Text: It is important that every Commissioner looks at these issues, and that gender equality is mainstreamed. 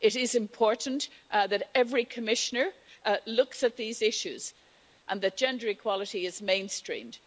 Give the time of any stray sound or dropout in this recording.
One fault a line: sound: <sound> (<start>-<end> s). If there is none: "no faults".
no faults